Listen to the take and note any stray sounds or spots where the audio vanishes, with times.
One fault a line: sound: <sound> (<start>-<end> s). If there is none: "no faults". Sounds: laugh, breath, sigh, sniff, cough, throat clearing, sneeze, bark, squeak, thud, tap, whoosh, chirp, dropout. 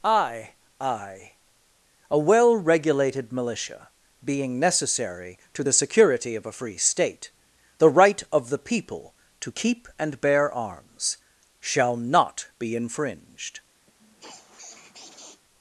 sound: sniff (13.9-15.4 s)